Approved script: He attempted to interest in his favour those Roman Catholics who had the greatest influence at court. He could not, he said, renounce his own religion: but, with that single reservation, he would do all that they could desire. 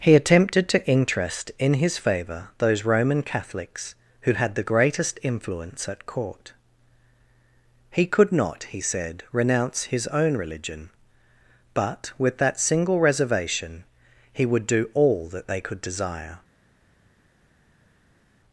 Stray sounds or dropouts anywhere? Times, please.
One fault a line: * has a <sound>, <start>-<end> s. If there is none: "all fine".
all fine